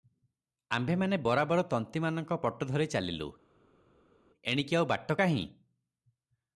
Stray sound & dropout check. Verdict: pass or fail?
pass